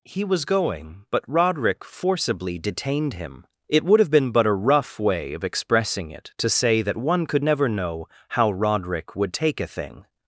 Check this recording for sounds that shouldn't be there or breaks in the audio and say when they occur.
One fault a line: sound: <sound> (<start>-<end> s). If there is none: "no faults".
no faults